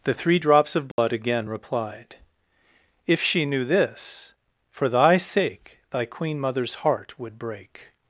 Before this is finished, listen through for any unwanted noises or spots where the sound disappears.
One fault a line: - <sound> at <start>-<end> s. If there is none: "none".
- dropout at 0.9-1.0 s